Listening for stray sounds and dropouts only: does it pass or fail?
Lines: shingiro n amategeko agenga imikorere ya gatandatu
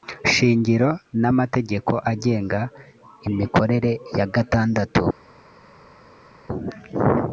pass